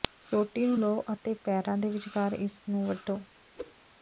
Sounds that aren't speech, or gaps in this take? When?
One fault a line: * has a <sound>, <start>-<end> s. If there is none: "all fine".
* has a whoosh, 3.6-3.7 s